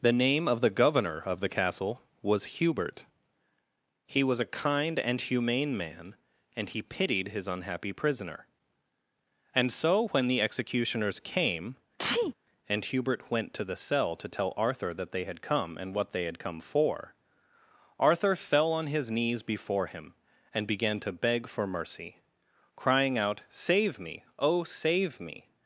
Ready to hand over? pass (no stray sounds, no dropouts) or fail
fail